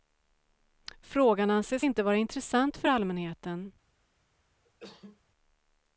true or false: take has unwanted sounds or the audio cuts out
true